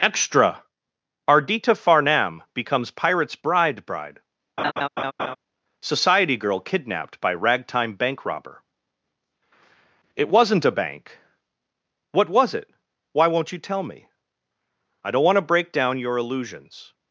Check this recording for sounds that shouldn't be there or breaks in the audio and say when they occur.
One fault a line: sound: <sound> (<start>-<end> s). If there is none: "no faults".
sound: laugh (4.6-5.4 s)